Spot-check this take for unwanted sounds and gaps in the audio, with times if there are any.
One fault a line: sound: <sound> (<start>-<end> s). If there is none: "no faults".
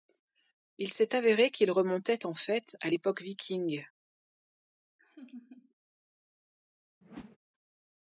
sound: laugh (5.0-5.7 s)
sound: whoosh (7.0-7.4 s)